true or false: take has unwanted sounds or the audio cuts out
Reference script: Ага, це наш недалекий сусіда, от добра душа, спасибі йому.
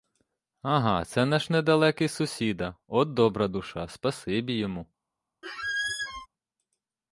true